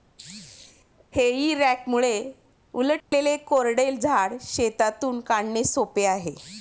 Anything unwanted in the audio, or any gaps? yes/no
yes